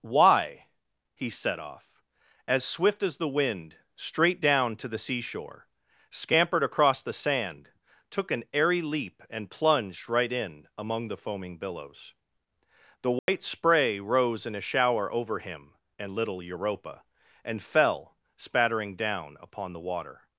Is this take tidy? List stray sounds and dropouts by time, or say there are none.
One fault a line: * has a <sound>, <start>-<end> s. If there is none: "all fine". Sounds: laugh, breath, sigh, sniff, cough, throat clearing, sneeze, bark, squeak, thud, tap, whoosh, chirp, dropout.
* has a dropout, 13.2-13.3 s